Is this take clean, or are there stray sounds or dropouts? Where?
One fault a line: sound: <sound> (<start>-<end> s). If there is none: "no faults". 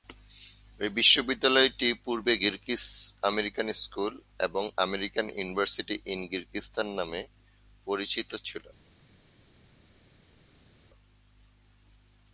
no faults